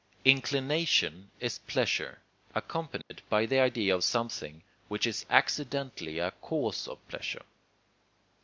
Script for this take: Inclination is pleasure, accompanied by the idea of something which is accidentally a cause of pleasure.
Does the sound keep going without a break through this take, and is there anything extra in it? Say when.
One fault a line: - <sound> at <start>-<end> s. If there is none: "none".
- dropout at 3.0-3.1 s